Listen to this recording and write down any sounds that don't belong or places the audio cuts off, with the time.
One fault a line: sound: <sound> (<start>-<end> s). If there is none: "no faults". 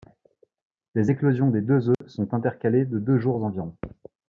sound: dropout (1.9-2.0 s)